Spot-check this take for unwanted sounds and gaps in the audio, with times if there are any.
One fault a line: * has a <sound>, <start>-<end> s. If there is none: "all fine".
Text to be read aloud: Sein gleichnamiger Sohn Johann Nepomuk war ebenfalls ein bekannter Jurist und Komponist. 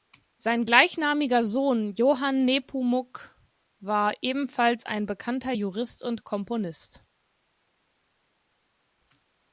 all fine